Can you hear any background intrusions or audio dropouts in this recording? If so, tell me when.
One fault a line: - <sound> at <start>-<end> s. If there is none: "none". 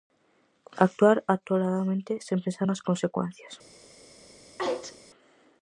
- sneeze at 4.6-5.0 s